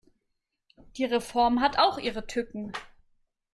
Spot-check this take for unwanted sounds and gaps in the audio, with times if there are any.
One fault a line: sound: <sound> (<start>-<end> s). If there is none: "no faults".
no faults